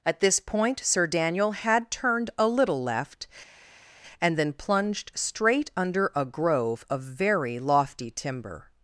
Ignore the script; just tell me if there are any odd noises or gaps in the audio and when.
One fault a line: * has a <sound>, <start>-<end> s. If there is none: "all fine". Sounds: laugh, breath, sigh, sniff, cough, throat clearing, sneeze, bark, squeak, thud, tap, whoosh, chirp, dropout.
all fine